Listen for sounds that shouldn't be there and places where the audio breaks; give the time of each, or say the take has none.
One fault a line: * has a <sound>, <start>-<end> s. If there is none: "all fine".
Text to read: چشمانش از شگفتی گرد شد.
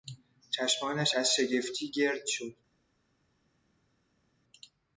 all fine